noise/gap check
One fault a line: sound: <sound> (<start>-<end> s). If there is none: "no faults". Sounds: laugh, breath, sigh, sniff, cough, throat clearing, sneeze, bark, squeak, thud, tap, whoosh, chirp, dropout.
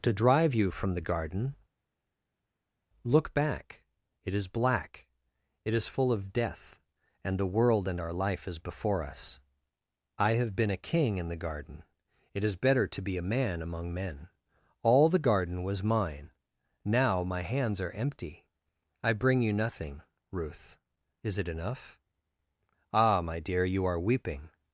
no faults